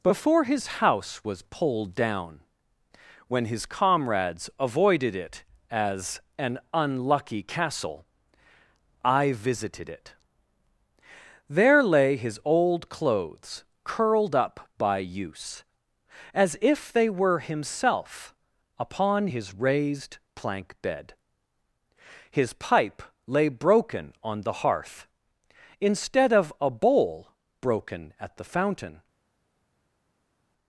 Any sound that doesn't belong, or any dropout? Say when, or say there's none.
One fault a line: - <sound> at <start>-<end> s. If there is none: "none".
none